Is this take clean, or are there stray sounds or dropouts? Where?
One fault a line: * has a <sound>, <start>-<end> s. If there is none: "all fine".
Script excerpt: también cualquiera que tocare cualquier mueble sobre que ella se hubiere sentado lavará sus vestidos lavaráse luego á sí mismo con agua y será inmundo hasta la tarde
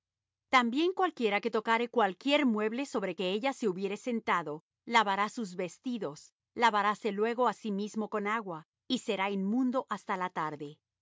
all fine